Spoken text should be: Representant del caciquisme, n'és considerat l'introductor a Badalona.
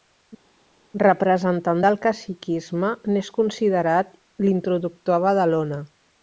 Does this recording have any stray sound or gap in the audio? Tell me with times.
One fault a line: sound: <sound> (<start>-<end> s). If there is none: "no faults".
no faults